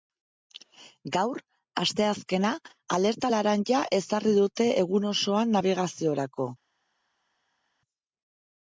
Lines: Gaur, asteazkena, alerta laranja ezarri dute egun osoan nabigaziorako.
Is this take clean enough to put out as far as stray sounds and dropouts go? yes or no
yes